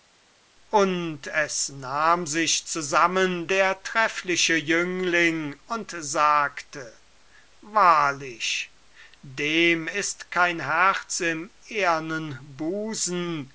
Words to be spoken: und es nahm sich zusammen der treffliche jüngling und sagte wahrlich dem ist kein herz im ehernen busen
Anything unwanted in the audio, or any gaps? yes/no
no